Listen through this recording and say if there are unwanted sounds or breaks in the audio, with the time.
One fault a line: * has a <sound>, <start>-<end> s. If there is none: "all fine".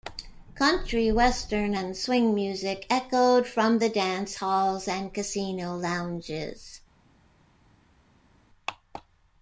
all fine